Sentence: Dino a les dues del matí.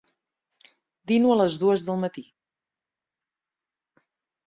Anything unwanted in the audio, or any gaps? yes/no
no